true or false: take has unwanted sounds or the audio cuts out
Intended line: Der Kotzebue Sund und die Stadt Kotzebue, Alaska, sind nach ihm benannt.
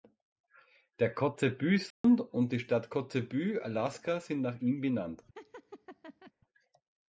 true